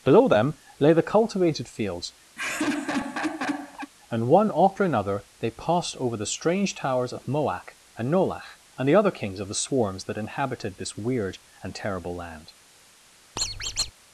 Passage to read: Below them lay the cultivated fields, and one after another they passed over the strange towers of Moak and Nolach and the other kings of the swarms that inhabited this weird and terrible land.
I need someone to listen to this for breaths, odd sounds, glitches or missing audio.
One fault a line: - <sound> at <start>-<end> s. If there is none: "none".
- laugh at 2.4-3.9 s
- squeak at 13.4-13.9 s